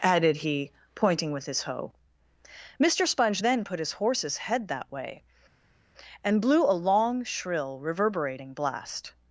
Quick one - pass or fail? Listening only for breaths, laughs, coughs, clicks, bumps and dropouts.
pass